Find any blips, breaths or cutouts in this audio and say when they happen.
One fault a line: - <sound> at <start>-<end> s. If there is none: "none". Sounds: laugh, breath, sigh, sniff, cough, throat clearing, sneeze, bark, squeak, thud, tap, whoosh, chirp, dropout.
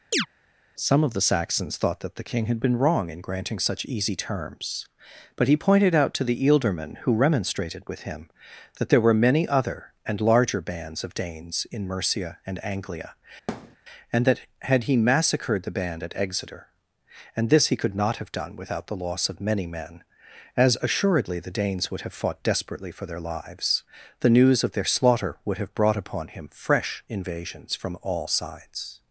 - chirp at 0.1-0.3 s
- thud at 13.5-13.8 s